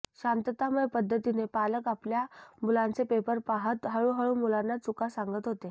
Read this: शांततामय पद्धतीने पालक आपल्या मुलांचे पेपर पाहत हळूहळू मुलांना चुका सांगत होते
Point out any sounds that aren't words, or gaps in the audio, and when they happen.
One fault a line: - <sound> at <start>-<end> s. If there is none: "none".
none